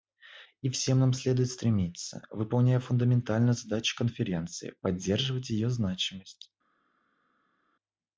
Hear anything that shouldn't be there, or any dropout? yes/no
no